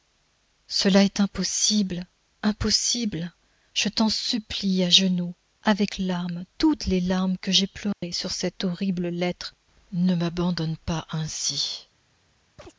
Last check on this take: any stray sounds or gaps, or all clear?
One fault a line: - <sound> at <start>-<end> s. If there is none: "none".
- dropout at 7.9-8.0 s
- chirp at 12.6-12.7 s